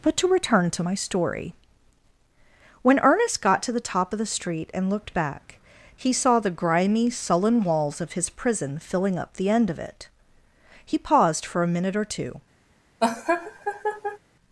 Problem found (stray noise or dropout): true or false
true